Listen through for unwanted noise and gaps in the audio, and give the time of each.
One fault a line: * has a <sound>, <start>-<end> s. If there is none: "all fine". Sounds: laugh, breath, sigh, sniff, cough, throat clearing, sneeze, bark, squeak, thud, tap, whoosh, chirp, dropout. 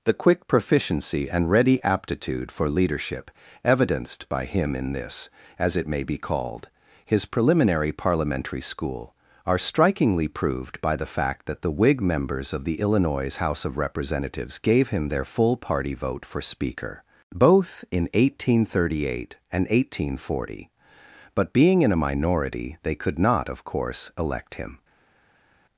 all fine